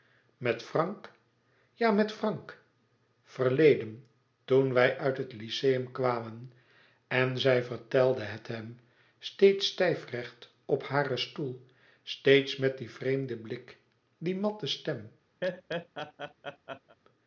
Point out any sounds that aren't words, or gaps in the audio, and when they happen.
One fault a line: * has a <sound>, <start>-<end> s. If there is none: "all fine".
* has a laugh, 15.4-17.0 s